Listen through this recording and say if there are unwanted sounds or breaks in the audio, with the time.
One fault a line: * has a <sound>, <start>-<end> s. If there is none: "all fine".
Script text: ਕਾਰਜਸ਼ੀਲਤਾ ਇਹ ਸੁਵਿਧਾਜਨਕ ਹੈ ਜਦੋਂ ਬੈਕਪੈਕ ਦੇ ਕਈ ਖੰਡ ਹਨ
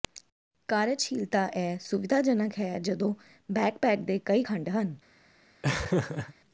* has a laugh, 5.6-6.3 s